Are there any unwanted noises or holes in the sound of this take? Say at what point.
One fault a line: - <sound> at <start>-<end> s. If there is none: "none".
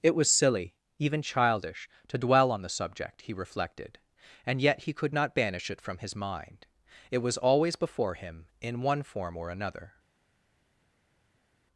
none